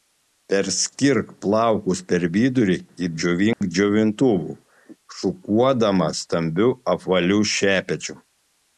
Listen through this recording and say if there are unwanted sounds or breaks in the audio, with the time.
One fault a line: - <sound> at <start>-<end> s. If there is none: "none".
- dropout at 3.5-3.6 s